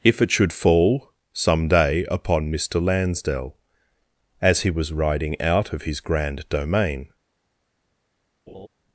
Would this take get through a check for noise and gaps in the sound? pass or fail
fail